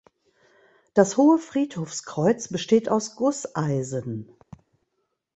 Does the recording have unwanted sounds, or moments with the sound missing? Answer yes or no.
yes